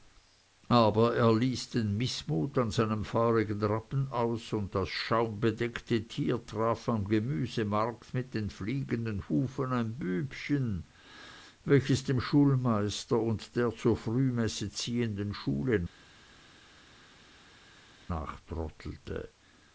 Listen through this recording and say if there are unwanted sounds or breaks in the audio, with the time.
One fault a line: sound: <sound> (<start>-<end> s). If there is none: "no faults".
no faults